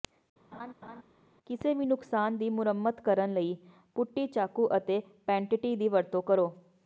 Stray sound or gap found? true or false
true